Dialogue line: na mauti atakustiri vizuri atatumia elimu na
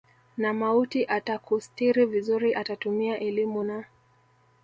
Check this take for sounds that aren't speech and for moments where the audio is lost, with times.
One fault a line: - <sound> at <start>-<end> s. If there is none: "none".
none